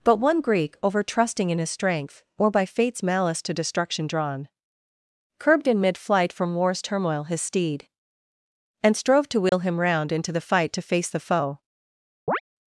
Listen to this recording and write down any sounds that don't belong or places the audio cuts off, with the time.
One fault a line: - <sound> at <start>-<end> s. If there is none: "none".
- dropout at 9.5-9.5 s
- chirp at 12.3-12.4 s